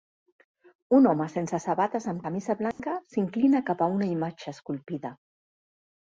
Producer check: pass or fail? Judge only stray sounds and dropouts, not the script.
fail